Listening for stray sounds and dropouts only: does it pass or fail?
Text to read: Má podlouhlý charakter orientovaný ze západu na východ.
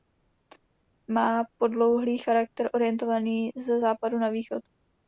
pass